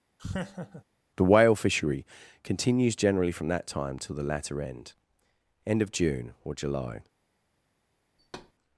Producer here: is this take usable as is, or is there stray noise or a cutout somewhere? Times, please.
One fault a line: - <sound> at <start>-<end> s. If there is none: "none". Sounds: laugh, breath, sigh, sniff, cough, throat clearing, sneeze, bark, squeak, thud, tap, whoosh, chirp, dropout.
- laugh at 0.2-0.8 s
- thud at 8.2-8.5 s